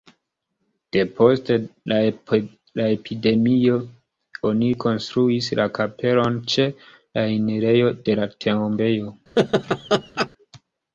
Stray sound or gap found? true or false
true